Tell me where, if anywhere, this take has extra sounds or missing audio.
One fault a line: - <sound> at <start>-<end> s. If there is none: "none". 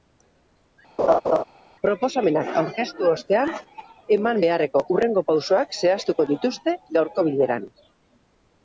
- laugh at 1.0-1.4 s